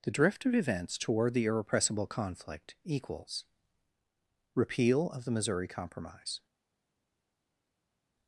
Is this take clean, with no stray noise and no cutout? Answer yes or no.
yes